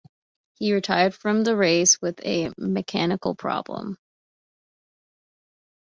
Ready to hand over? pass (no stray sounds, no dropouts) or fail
pass